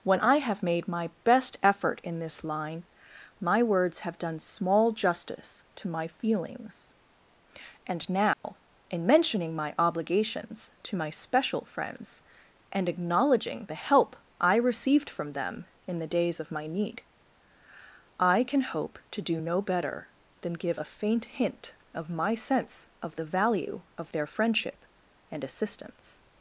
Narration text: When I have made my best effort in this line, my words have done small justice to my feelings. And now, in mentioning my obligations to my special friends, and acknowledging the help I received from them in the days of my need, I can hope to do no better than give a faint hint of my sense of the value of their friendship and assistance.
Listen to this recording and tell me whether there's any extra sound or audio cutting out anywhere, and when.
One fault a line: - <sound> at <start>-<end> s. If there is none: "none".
- dropout at 8.3-8.4 s